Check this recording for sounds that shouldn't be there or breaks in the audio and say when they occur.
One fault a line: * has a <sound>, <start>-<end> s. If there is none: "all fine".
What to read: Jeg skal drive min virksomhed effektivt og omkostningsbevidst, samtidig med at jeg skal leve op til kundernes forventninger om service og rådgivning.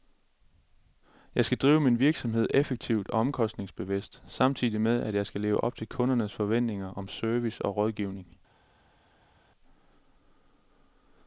all fine